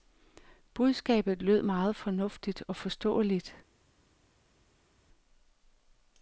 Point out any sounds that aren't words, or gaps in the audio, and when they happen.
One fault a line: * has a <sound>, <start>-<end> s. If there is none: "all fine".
all fine